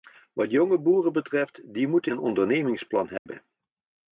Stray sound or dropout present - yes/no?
yes